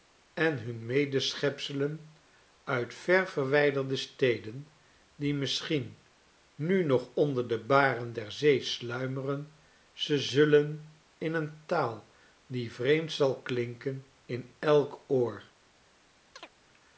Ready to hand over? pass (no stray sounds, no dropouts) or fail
fail